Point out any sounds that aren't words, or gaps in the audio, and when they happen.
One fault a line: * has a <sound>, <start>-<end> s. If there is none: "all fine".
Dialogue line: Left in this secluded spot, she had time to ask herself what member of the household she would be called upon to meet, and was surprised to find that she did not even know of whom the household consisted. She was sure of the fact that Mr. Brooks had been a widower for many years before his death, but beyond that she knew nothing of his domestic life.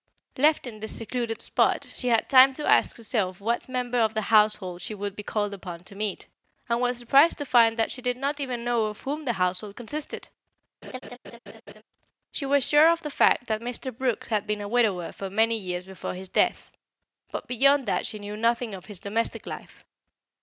* has a laugh, 10.8-11.8 s